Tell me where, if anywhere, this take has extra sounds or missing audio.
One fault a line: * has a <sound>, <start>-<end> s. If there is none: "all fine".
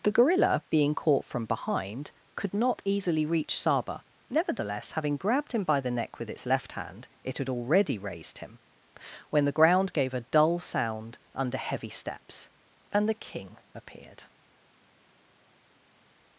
all fine